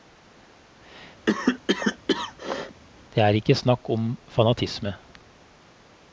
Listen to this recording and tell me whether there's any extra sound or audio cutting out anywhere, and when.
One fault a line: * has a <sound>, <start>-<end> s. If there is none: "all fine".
* has a cough, 1.3-2.8 s